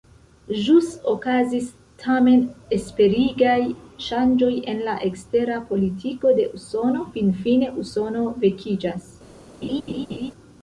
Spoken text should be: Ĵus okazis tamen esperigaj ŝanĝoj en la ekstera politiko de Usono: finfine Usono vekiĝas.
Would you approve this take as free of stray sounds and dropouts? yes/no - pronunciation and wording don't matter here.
no